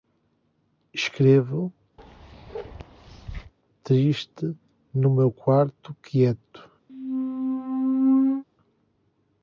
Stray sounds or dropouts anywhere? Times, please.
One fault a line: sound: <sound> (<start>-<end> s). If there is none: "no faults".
sound: bark (2.0-3.5 s)
sound: squeak (6.9-8.4 s)